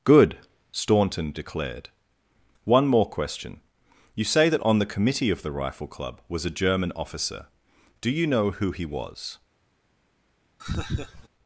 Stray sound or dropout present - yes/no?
yes